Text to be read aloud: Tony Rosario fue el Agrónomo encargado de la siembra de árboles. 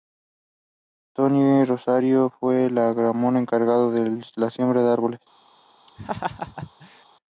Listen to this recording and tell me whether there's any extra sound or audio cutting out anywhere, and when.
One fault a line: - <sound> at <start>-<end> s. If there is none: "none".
- laugh at 5.9-7.0 s